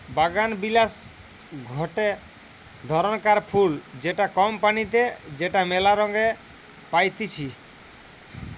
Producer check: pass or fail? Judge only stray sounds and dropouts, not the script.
pass